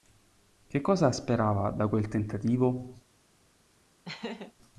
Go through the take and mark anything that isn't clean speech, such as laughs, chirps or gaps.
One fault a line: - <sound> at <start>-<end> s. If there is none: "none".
- laugh at 4.1-4.5 s